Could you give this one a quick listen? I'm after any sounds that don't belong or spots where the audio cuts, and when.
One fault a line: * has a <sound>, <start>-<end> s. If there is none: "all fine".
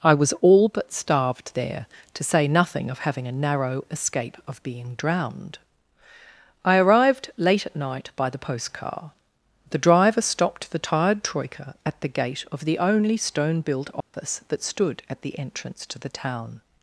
* has a dropout, 14.0-14.1 s